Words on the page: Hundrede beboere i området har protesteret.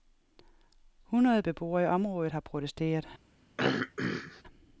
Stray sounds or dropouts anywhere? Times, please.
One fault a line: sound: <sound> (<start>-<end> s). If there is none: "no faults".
sound: throat clearing (3.6-4.4 s)